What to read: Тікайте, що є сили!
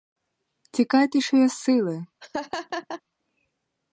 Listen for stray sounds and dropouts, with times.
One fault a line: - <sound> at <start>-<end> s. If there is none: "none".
- laugh at 2.2-3.0 s